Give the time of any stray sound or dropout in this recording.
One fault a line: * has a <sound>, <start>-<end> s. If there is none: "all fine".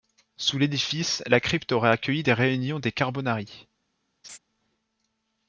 * has a laugh, 4.2-4.4 s